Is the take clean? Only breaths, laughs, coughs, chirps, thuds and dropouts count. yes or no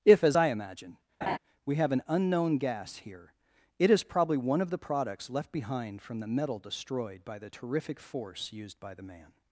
no